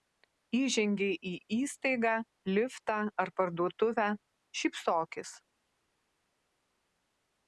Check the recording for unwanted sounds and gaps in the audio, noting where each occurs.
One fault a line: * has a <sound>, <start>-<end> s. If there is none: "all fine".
all fine